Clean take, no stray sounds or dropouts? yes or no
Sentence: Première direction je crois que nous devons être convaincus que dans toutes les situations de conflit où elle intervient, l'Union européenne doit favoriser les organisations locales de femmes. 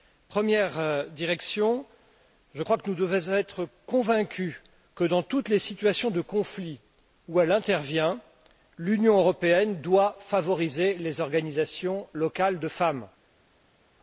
yes